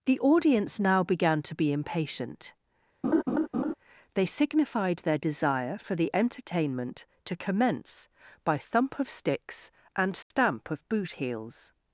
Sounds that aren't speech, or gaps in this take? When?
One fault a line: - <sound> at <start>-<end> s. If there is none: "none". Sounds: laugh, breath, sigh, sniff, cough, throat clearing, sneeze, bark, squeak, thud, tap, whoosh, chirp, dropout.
- laugh at 3.0-3.7 s
- dropout at 10.2-10.3 s